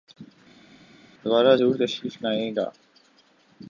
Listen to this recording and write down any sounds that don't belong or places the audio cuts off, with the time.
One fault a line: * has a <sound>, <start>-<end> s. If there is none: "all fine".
all fine